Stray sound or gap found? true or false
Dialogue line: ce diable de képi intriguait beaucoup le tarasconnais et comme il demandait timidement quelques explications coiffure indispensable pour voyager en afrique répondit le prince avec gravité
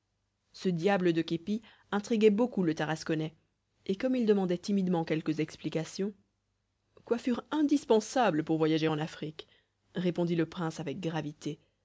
false